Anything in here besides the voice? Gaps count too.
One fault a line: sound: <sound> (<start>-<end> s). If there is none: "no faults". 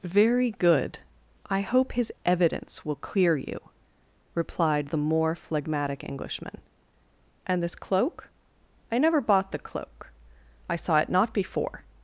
no faults